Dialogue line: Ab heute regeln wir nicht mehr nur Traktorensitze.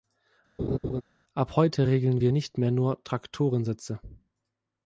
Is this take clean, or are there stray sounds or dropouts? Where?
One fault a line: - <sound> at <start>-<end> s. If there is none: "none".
- laugh at 0.6-1.0 s